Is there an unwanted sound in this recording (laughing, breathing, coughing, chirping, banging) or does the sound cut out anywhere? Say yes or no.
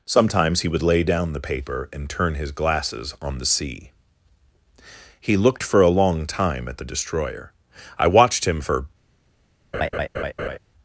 yes